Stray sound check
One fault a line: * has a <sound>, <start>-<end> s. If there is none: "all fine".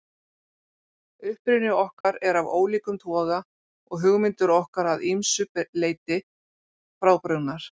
* has a dropout, 2.0-2.0 s